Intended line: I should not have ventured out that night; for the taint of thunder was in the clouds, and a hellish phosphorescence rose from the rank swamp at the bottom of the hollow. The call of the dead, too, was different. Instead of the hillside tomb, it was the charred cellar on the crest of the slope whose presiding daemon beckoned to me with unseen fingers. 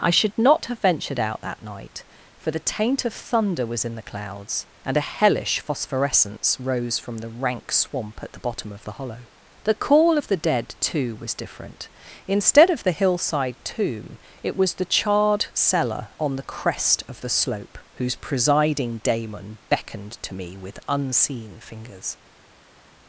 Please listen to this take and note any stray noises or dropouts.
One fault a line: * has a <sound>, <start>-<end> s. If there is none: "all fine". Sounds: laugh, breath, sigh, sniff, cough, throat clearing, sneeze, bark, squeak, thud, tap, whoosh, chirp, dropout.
all fine